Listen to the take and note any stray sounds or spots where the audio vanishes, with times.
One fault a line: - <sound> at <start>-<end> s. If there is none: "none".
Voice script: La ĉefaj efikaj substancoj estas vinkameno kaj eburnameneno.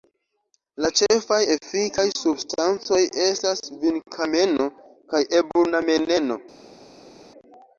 none